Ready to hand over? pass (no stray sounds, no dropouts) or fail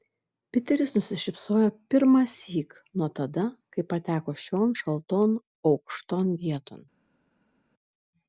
pass